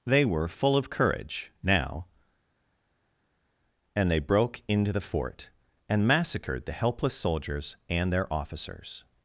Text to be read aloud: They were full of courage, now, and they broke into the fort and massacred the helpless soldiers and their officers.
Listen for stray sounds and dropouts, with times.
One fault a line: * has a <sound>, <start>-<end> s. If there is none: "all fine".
all fine